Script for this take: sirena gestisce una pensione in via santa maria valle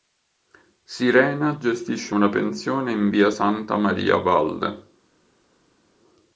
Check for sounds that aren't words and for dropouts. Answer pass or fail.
pass